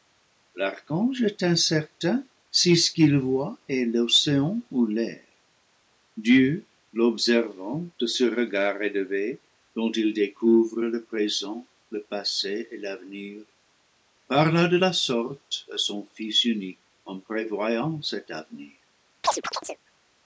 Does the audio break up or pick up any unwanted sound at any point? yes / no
yes